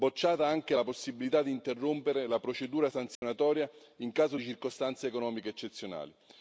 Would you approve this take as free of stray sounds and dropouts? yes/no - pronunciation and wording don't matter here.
no